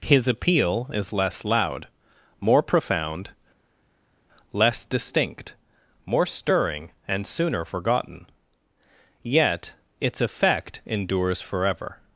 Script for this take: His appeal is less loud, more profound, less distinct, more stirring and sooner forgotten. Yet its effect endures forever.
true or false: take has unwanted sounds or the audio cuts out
false